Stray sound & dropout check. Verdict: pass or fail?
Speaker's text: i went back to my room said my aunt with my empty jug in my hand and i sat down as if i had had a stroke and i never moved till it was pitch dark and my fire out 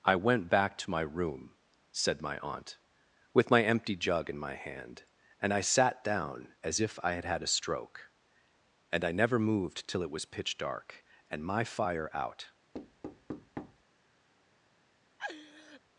fail